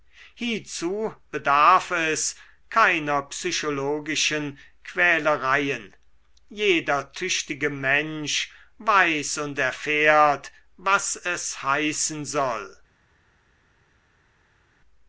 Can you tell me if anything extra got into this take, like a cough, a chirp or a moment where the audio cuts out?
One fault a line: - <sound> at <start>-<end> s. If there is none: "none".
none